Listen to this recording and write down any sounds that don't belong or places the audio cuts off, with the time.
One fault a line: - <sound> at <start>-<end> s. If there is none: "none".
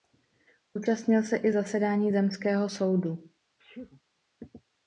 - sneeze at 3.6-4.0 s